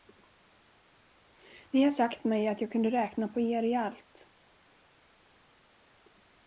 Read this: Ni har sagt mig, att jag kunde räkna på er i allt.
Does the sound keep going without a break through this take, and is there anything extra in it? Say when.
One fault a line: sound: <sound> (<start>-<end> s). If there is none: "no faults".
no faults